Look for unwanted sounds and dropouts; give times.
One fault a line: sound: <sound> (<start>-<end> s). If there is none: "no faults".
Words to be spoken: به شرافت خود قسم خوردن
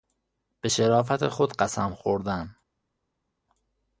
no faults